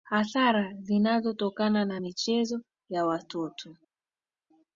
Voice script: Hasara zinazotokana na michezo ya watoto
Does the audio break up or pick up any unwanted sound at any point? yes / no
no